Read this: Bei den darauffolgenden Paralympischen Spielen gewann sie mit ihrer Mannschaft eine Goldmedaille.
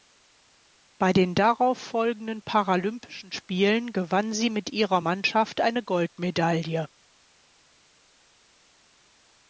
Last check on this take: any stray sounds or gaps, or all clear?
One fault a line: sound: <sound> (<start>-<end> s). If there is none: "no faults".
no faults